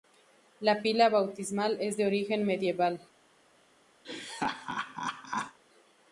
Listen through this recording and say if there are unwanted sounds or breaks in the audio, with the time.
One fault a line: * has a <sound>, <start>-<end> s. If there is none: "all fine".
* has a laugh, 4.0-5.6 s